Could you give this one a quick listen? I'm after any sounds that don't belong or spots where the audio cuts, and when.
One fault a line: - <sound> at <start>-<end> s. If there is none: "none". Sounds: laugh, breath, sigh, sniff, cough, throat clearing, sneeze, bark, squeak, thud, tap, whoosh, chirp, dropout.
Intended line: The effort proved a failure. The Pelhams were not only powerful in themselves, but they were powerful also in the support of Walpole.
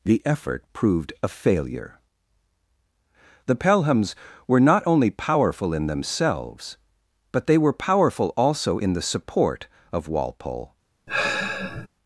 - sigh at 11.1-11.9 s